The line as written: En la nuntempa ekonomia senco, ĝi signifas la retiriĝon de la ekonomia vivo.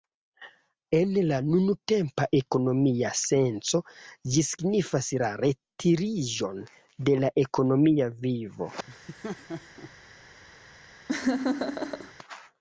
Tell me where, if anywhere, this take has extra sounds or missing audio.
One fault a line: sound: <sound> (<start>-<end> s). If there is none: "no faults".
sound: laugh (8.9-9.9 s)
sound: laugh (11.1-12.1 s)